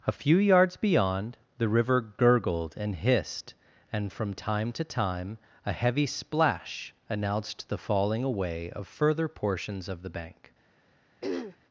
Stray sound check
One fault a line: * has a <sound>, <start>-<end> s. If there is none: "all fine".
* has a throat clearing, 11.2-11.6 s